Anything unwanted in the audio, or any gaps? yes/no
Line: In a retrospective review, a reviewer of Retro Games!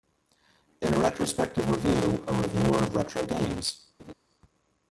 yes